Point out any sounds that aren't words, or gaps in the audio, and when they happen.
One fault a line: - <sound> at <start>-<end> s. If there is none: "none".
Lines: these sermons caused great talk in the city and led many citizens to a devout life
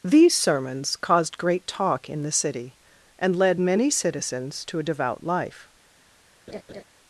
- laugh at 6.5-6.8 s